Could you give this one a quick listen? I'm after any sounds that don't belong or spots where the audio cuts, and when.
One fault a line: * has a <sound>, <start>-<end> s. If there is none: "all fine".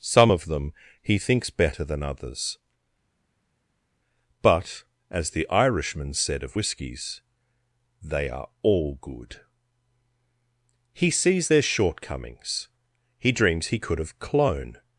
all fine